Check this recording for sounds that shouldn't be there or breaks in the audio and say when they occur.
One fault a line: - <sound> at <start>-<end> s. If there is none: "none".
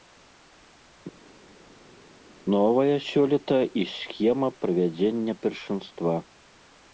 none